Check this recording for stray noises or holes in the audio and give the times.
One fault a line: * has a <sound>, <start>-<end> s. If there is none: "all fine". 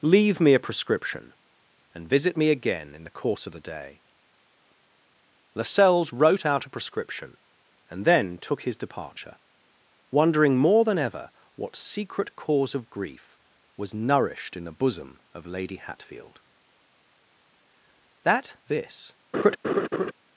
* has a laugh, 19.3-20.1 s